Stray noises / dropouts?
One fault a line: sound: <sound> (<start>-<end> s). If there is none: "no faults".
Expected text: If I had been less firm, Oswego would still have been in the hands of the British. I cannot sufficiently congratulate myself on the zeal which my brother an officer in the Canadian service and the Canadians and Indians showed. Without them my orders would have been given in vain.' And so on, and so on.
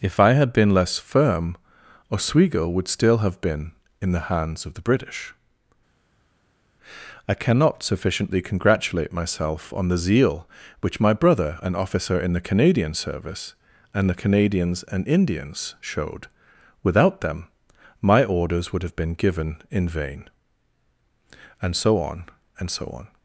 no faults